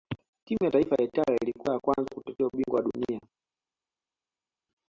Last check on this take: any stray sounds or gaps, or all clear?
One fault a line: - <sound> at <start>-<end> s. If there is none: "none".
none